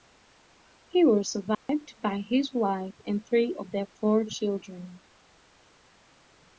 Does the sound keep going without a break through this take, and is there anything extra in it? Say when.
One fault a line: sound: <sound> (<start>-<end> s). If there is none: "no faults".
sound: dropout (1.5-1.7 s)